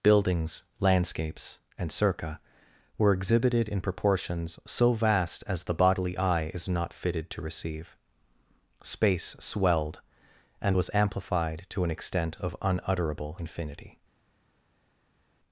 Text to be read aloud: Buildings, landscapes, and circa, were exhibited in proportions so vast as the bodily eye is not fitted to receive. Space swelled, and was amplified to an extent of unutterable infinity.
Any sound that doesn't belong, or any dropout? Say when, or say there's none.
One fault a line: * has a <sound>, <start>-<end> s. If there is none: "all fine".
all fine